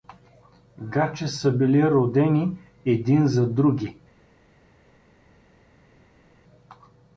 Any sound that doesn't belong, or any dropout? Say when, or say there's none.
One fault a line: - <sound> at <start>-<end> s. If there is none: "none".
none